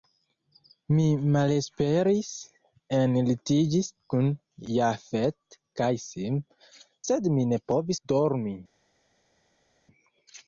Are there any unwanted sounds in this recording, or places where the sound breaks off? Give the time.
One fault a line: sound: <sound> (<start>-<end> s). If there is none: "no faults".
no faults